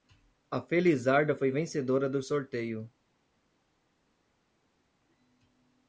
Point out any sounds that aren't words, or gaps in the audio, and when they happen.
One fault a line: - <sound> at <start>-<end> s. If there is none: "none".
none